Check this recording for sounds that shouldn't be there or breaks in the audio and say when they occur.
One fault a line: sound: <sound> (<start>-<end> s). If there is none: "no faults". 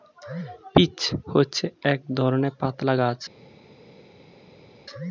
no faults